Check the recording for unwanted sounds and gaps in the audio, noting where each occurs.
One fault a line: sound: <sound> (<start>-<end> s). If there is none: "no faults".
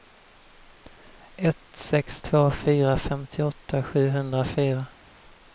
no faults